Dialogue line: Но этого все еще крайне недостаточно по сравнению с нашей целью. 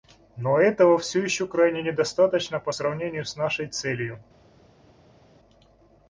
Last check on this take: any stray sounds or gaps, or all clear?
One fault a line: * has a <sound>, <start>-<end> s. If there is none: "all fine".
all fine